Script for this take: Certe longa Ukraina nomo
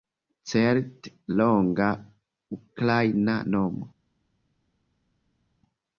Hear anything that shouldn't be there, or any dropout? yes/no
no